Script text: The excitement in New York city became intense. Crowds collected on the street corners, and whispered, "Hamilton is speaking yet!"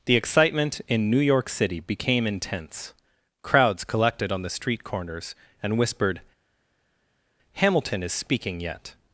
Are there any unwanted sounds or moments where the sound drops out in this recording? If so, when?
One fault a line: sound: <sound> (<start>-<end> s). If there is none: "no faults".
no faults